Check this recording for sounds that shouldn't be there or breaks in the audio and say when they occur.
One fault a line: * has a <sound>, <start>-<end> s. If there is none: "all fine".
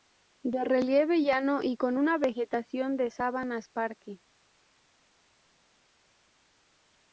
all fine